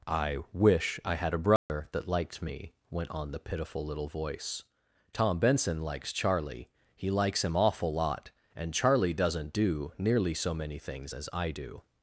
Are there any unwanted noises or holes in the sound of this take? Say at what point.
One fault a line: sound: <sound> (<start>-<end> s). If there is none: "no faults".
sound: dropout (1.6-1.7 s)